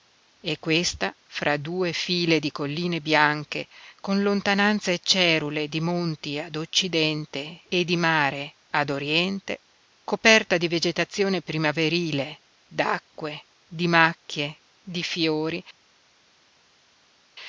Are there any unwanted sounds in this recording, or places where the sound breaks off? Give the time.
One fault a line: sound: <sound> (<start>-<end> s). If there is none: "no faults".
no faults